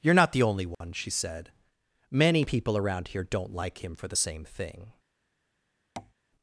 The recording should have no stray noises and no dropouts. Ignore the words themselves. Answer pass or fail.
fail